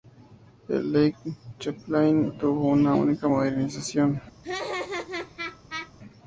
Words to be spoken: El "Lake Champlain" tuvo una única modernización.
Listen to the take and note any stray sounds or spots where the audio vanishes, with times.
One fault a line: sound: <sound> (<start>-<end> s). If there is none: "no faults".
sound: laugh (4.4-5.9 s)